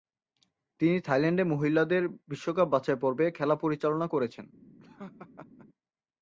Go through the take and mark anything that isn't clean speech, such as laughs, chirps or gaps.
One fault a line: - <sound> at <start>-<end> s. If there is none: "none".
- laugh at 4.8-5.7 s